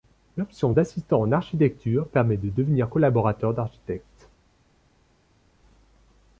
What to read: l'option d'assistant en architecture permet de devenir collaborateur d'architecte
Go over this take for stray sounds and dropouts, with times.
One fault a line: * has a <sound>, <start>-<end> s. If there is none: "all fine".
all fine